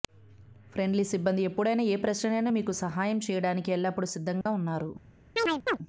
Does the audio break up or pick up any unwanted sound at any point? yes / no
yes